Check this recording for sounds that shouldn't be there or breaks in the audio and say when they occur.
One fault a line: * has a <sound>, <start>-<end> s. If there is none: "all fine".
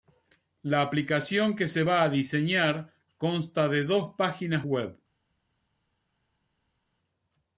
all fine